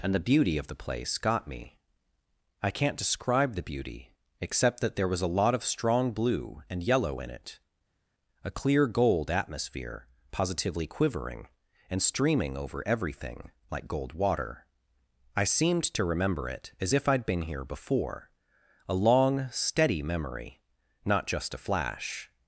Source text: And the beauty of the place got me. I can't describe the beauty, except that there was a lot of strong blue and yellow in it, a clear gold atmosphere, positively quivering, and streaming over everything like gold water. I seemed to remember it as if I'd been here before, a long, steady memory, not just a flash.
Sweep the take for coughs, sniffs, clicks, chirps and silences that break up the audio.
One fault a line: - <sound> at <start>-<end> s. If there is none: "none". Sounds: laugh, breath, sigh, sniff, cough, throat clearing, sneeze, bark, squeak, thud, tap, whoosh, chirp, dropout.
none